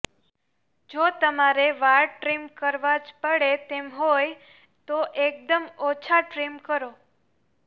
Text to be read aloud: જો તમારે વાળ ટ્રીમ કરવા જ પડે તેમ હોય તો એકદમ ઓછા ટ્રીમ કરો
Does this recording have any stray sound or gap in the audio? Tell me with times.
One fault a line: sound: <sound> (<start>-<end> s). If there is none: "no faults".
no faults